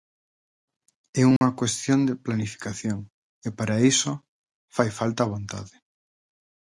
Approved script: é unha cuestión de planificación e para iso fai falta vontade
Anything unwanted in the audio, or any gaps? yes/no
yes